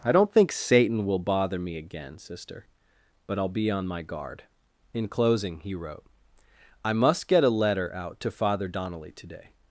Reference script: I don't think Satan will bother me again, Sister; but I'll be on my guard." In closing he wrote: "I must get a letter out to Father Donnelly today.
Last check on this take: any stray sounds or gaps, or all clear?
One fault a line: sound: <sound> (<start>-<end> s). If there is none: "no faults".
no faults